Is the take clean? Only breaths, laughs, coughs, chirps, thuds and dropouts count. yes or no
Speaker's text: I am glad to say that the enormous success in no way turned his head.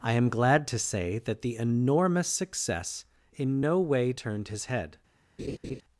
no